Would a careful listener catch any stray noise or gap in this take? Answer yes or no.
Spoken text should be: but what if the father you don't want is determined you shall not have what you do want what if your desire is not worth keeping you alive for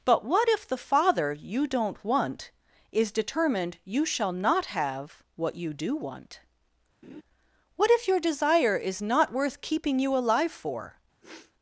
yes